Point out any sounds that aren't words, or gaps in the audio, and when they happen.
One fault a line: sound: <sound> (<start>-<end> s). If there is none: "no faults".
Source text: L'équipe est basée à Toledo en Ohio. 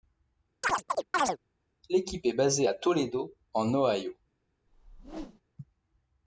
sound: chirp (0.6-1.4 s)
sound: whoosh (4.7-5.4 s)